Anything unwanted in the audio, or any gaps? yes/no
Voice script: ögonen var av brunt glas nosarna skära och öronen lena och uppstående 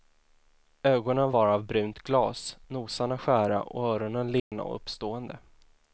yes